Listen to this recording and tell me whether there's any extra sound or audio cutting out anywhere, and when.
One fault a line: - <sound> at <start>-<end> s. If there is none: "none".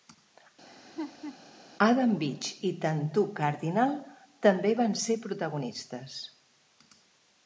- laugh at 0.7-1.4 s